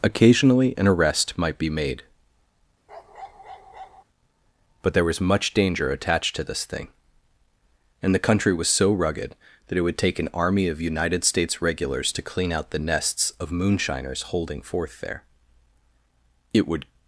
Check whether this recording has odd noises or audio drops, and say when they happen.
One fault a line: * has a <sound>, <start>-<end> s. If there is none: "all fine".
* has a bark, 2.9-4.0 s